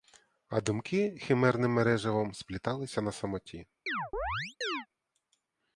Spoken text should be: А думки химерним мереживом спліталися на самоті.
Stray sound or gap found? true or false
true